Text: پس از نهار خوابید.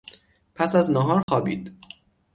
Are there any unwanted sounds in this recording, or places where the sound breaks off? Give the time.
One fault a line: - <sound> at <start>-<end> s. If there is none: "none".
- dropout at 1.2-1.3 s